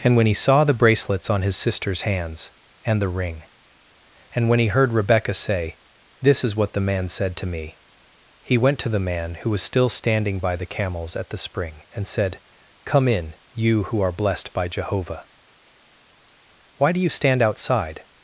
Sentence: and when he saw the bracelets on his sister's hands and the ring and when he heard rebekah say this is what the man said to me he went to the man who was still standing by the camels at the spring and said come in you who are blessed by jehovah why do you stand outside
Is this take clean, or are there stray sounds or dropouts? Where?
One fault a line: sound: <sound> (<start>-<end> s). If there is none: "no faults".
no faults